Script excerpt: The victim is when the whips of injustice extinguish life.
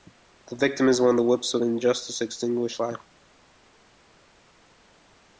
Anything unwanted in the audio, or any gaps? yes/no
no